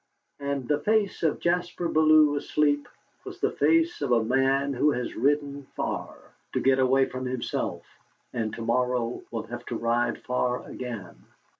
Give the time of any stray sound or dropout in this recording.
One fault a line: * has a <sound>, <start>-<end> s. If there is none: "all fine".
all fine